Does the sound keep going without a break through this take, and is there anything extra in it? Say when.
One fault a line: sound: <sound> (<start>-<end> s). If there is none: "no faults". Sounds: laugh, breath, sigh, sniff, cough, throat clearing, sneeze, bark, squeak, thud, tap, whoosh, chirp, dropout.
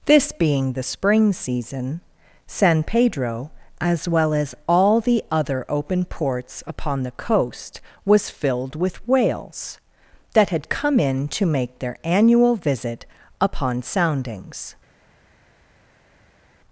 no faults